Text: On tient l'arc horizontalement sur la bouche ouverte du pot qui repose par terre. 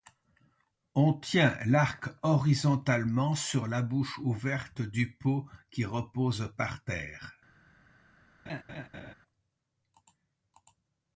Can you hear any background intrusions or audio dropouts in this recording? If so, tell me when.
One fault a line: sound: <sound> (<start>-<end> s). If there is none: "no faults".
sound: laugh (8.5-9.1 s)